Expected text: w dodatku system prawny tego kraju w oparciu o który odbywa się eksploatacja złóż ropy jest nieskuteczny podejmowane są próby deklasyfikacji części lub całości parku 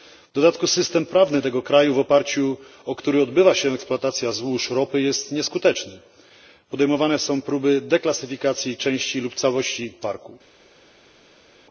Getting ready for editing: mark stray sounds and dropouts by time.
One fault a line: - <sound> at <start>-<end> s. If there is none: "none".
none